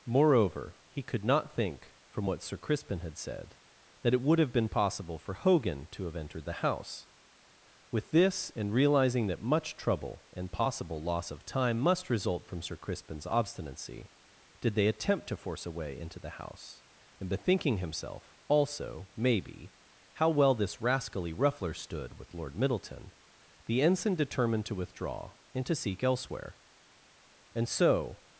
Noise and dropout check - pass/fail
pass